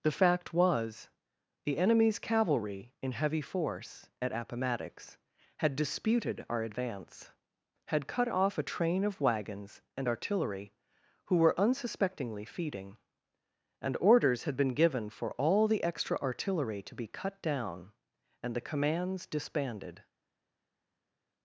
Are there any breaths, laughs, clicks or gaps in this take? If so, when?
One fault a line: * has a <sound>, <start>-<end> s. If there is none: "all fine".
all fine